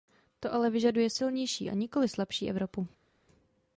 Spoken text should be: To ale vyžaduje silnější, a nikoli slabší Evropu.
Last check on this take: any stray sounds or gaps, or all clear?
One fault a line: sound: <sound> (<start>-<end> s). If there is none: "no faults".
no faults